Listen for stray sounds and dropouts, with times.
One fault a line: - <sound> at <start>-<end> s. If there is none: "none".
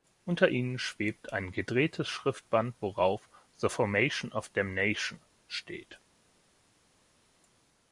none